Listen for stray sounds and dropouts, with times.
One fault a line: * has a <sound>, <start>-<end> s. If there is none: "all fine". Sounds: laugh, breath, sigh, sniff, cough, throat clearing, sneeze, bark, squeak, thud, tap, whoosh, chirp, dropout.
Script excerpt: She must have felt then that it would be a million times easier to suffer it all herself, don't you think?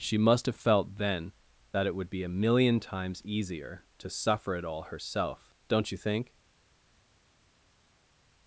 all fine